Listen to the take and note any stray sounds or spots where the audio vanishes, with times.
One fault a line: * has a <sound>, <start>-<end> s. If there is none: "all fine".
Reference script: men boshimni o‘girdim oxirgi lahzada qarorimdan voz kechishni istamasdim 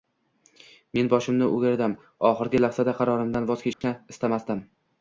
* has a dropout, 3.7-3.8 s